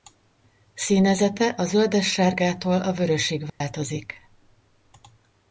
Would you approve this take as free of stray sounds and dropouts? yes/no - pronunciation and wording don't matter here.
no